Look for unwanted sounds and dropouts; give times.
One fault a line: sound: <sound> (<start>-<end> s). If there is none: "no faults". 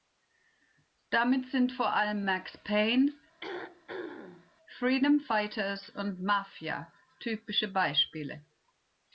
sound: throat clearing (3.4-4.5 s)